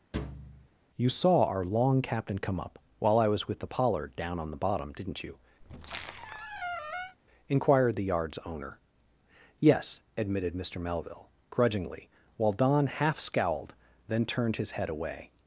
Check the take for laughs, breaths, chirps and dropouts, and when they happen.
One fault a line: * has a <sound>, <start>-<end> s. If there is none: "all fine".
* has a thud, 0.1-0.7 s
* has a squeak, 5.6-7.2 s